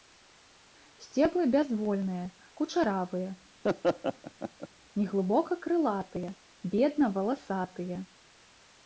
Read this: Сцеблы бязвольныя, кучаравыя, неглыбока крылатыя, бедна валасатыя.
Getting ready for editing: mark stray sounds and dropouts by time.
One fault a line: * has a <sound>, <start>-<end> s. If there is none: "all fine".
* has a laugh, 3.6-4.7 s